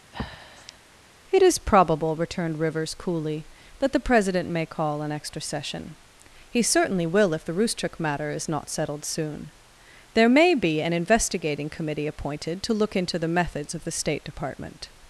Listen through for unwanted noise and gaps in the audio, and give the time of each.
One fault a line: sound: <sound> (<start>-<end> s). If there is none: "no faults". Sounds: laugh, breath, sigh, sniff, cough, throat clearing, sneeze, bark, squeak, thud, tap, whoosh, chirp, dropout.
sound: breath (0.1-0.8 s)